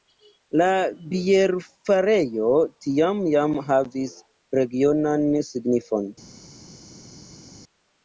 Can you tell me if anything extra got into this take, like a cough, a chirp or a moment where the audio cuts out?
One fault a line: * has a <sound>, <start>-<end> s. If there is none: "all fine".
all fine